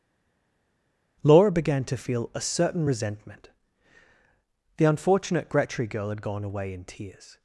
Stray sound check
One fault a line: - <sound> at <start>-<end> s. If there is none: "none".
none